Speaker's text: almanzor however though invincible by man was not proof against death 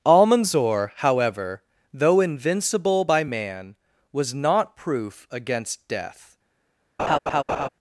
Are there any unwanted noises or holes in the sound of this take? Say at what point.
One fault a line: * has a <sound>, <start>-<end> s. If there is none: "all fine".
* has a laugh, 7.0-7.7 s